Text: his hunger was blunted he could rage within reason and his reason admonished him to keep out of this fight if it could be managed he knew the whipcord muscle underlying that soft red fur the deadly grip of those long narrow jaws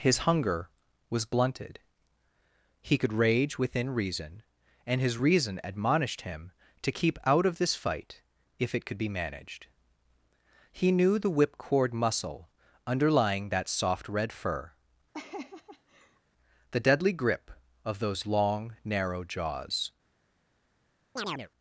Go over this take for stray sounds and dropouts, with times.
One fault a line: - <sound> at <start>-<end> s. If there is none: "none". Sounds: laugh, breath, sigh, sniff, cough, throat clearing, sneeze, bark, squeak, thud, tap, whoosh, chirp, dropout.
- laugh at 15.1-16.2 s
- chirp at 21.2-21.5 s